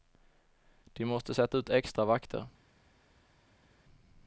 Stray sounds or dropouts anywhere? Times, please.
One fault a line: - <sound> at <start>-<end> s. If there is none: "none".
none